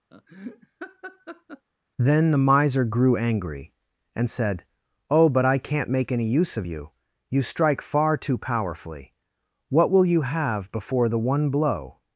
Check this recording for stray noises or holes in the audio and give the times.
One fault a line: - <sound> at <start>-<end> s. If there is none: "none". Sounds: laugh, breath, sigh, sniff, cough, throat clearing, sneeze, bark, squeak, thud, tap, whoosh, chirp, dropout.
- laugh at 0.1-1.7 s